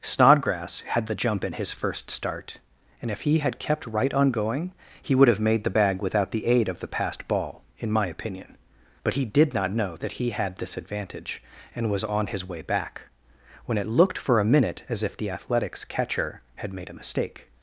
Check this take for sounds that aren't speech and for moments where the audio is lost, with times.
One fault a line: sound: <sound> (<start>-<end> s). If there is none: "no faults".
no faults